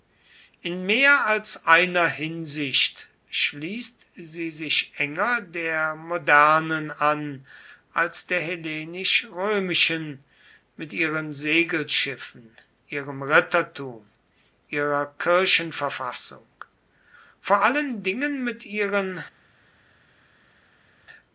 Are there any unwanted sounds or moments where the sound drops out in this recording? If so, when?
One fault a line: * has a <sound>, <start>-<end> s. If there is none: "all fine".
all fine